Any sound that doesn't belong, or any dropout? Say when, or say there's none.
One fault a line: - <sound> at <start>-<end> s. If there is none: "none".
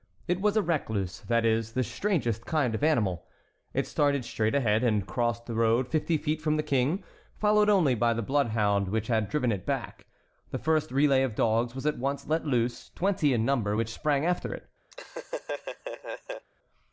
- laugh at 14.9-16.5 s